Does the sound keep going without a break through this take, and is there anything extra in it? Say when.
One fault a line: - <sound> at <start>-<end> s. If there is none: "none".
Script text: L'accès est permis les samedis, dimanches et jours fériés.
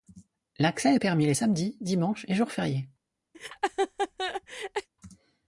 - laugh at 3.3-4.9 s